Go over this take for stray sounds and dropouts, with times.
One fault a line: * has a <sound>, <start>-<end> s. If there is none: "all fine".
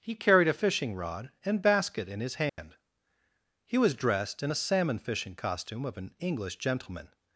* has a dropout, 2.5-2.6 s